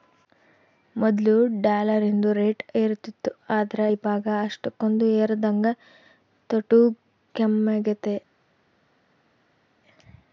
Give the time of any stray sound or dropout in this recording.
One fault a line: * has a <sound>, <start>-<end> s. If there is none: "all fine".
all fine